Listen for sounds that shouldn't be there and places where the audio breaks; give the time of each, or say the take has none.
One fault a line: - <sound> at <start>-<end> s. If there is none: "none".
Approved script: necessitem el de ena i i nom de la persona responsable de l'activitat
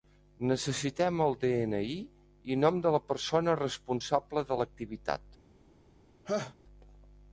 - laugh at 6.2-6.5 s